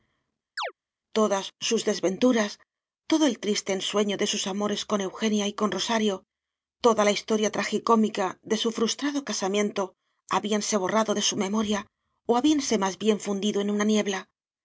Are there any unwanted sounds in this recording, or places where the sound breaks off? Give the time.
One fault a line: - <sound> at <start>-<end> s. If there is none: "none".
- chirp at 0.6-0.7 s